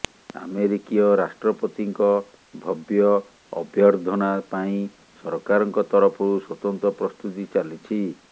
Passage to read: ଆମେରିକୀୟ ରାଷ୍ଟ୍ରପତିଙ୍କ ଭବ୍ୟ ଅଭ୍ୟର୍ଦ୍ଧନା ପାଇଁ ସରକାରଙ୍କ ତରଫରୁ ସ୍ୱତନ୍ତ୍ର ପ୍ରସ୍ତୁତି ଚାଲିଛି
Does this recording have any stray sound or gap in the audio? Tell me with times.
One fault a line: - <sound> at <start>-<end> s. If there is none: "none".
none